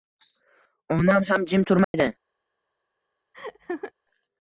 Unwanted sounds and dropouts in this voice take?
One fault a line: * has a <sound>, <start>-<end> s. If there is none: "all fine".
* has a dropout, 1.8-1.9 s
* has a laugh, 3.3-3.9 s